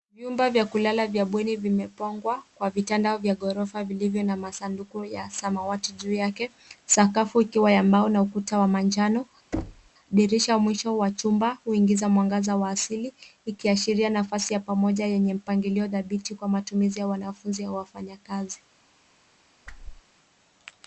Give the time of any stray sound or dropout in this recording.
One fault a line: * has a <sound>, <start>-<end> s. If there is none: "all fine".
* has a thud, 9.5-9.9 s
* has a whoosh, 19.7-20.0 s